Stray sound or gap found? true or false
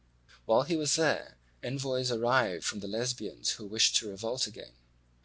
false